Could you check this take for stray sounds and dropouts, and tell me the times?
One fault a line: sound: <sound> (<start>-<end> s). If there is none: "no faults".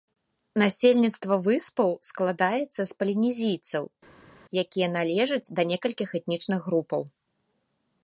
no faults